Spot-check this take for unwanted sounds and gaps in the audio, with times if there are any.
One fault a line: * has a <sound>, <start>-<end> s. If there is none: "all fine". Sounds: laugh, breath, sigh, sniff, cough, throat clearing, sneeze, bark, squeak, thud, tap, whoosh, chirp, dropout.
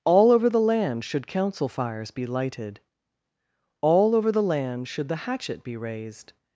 all fine